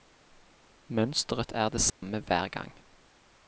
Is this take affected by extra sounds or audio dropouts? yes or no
yes